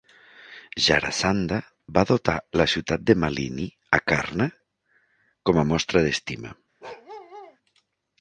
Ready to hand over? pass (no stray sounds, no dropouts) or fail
fail